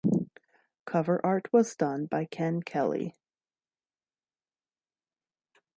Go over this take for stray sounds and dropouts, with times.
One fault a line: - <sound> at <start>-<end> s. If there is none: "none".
none